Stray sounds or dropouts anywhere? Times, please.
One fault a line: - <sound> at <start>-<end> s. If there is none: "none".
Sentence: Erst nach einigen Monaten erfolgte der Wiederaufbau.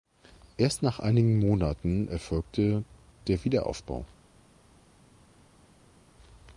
none